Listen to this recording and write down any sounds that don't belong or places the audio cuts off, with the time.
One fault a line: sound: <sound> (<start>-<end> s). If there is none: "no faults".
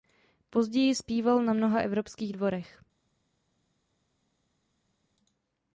no faults